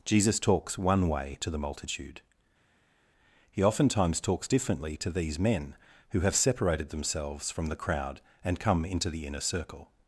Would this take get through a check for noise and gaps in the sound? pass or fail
pass